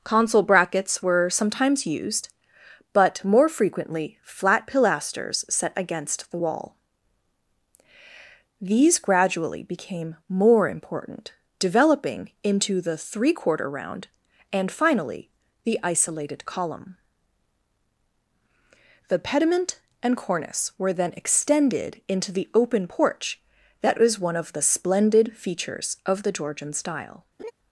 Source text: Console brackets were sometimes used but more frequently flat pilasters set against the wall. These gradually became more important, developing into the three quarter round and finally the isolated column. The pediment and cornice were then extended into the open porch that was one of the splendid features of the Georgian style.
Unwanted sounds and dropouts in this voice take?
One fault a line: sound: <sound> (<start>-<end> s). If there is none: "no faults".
sound: laugh (27.4-27.5 s)